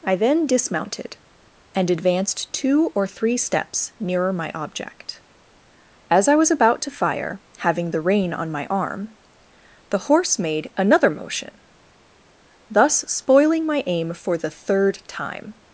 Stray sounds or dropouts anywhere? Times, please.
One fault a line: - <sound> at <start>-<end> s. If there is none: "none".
none